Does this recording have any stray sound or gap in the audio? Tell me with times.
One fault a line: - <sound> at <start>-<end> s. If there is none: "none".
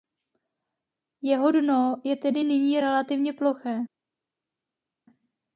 none